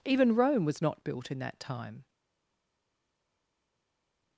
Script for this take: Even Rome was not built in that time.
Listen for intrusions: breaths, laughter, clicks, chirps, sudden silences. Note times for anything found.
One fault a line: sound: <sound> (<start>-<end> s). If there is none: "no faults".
no faults